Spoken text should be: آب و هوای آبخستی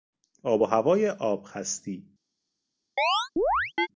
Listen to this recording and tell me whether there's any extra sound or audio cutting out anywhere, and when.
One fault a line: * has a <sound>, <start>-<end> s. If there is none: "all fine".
* has a chirp, 3.0-3.9 s